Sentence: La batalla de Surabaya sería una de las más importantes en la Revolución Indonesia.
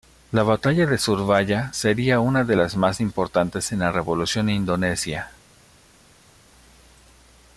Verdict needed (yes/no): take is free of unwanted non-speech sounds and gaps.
yes